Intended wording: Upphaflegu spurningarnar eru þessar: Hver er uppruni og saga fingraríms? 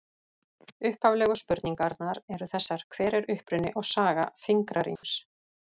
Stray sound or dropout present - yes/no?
yes